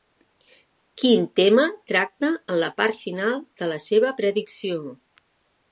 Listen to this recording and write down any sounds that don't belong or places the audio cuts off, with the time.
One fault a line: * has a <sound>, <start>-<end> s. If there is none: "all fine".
all fine